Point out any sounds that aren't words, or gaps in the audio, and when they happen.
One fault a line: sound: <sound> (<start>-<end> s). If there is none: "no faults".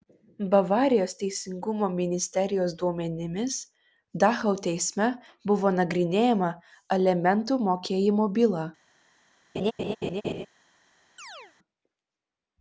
sound: laugh (9.6-10.5 s)
sound: chirp (11.2-11.5 s)